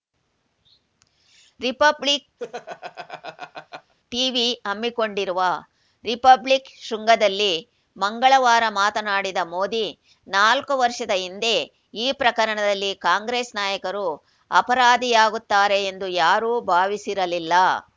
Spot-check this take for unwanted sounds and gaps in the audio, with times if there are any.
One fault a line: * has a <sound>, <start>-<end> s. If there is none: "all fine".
* has a laugh, 2.4-3.9 s